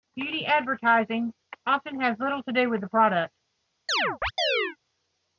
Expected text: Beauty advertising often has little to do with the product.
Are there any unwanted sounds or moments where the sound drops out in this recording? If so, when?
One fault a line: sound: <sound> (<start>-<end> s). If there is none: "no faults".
sound: chirp (3.9-4.8 s)